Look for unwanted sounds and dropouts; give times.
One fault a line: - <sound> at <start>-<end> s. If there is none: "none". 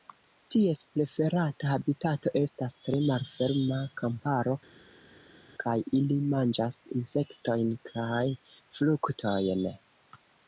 none